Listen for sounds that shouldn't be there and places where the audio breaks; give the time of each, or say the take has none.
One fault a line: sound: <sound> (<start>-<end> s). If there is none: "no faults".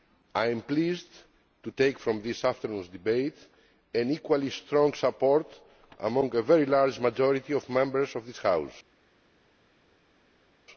no faults